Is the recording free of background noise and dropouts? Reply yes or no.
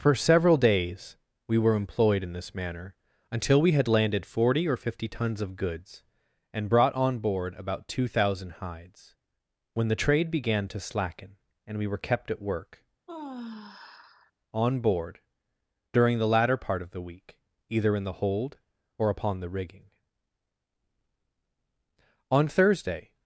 no